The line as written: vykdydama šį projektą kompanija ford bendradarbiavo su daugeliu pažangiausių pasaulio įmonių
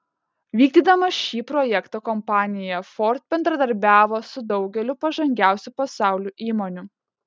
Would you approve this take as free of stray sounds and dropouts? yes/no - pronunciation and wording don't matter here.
yes